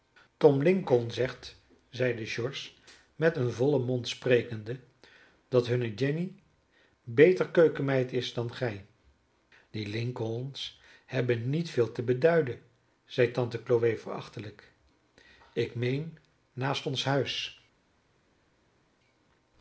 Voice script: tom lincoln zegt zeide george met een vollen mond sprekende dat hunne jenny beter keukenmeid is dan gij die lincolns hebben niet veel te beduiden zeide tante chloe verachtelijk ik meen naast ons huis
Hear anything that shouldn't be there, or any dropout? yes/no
no